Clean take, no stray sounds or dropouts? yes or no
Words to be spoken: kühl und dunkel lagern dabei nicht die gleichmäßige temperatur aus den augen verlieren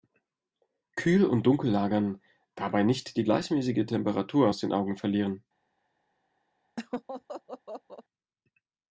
no